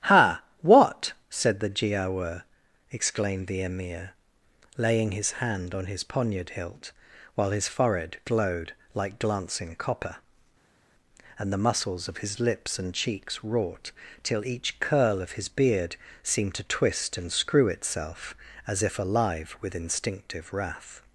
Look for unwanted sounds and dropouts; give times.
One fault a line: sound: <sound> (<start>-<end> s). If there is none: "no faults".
no faults